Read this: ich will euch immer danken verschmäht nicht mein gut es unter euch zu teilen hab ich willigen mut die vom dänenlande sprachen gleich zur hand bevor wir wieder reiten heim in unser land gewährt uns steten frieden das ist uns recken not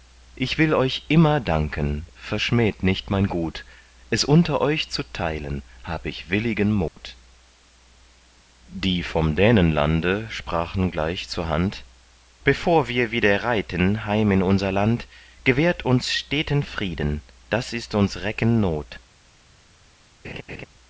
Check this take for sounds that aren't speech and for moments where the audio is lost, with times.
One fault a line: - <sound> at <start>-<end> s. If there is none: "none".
- dropout at 6.9-7.0 s
- laugh at 20.2-20.7 s